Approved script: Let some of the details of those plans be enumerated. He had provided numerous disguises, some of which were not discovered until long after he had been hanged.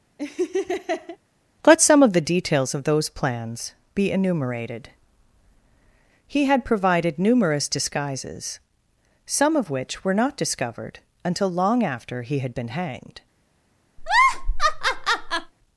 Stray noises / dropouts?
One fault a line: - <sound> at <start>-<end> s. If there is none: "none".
- laugh at 0.2-1.2 s
- laugh at 14.0-15.5 s